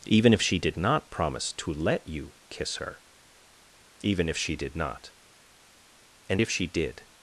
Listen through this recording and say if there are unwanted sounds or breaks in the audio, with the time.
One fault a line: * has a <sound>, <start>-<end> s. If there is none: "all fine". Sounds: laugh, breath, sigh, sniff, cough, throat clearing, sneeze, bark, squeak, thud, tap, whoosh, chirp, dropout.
all fine